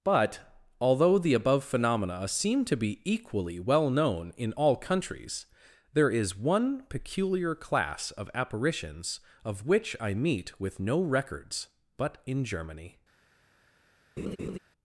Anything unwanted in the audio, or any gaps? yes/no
yes